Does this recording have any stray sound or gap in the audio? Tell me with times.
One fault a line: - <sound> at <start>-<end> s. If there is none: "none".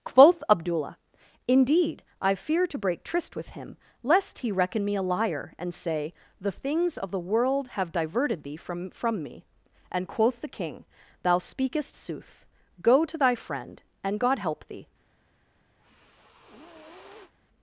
- sniff at 15.8-17.3 s